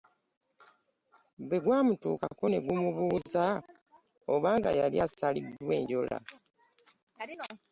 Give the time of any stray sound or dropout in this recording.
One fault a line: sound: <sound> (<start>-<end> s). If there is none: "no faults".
no faults